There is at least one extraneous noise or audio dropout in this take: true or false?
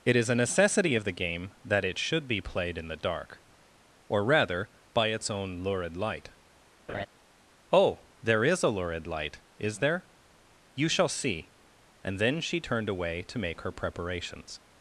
true